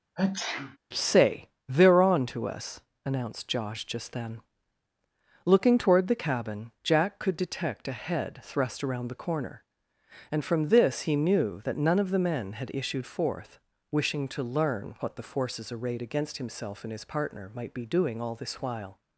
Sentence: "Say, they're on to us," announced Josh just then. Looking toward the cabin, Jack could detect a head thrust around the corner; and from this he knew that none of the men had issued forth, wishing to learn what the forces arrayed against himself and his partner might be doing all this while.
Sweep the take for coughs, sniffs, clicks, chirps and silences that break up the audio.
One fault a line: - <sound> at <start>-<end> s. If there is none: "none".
- sneeze at 0.2-0.8 s